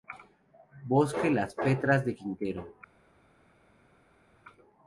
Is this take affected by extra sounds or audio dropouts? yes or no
no